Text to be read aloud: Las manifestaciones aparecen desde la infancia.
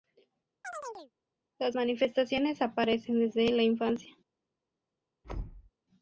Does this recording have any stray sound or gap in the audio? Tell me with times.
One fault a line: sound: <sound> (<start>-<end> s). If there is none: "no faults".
sound: chirp (0.6-1.1 s)
sound: thud (5.2-5.7 s)